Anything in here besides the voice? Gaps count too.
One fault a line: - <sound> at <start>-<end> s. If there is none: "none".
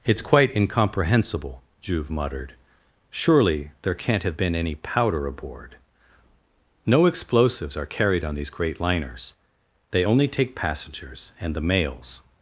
none